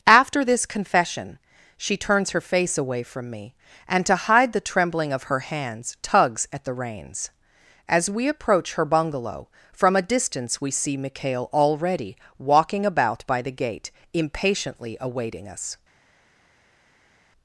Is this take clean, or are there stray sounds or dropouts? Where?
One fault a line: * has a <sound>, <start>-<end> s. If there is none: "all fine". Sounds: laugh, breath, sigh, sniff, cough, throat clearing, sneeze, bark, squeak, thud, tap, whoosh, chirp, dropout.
all fine